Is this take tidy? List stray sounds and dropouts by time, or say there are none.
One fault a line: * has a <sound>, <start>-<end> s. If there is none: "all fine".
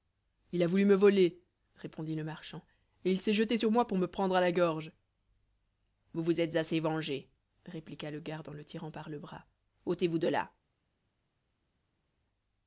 all fine